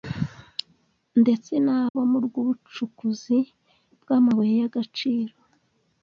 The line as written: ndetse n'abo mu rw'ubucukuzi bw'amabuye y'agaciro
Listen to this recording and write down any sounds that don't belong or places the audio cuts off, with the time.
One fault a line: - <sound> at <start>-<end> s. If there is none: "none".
- dropout at 1.9-2.0 s